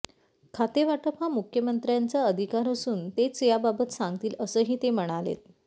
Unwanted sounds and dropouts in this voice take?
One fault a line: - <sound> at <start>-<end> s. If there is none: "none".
none